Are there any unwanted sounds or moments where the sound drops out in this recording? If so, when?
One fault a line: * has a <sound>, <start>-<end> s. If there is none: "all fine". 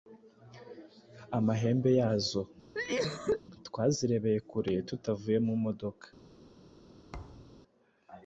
* has a cough, 2.7-3.4 s
* has a thud, 7.1-7.6 s